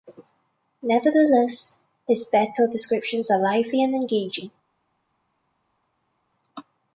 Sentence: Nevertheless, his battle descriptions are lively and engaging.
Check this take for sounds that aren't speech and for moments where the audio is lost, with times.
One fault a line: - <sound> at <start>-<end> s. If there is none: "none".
none